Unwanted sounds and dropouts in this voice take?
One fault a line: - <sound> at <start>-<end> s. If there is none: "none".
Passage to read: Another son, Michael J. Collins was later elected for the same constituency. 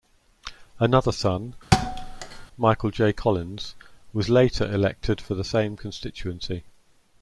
- thud at 1.7-2.5 s